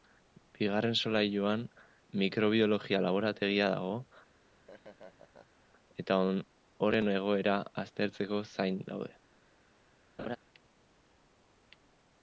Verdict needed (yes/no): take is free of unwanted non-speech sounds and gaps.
no